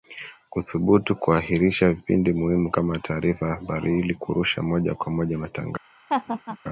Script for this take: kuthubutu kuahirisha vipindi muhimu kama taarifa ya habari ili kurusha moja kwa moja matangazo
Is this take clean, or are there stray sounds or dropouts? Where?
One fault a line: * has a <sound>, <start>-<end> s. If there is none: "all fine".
* has a laugh, 6.1-6.6 s